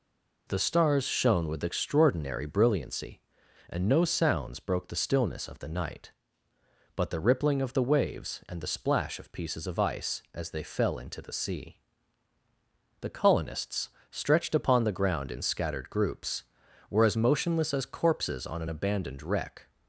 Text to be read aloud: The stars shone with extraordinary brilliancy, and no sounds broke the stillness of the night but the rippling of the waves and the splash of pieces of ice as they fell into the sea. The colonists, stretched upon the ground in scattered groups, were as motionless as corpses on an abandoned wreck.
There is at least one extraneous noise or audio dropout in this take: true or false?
false